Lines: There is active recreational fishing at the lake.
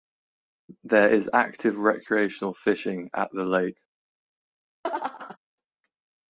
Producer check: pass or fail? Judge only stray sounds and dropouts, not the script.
fail